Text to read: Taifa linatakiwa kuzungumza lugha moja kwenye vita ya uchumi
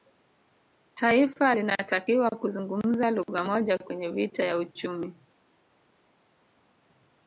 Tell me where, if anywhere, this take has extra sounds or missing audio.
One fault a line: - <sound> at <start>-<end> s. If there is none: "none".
none